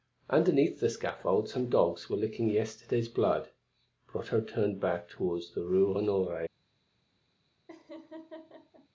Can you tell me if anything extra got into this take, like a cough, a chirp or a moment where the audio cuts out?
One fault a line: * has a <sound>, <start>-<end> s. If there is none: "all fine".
* has a laugh, 7.7-8.9 s